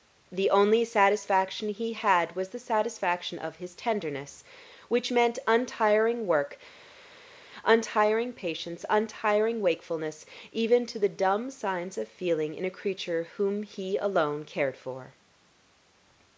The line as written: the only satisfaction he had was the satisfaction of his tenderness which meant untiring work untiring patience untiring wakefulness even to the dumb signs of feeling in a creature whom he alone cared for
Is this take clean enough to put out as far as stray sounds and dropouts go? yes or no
yes